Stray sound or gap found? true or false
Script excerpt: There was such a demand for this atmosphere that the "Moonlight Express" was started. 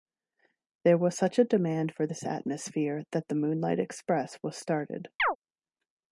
true